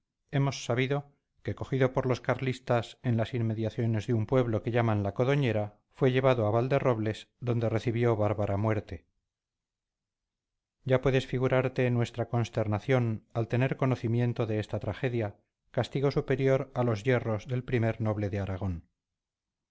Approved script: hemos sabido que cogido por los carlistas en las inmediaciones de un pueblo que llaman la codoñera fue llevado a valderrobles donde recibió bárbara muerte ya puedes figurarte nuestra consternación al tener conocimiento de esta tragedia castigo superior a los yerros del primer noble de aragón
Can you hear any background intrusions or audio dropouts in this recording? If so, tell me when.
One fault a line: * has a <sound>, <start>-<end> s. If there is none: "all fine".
all fine